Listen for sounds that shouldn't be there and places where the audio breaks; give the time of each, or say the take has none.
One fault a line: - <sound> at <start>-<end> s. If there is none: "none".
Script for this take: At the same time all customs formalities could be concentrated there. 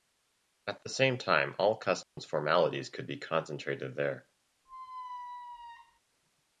- dropout at 2.0-2.2 s
- squeak at 4.7-6.0 s